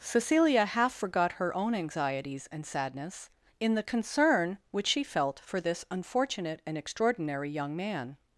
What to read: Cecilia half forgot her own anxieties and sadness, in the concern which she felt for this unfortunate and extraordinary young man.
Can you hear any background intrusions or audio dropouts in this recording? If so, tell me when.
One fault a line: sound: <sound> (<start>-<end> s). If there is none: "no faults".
no faults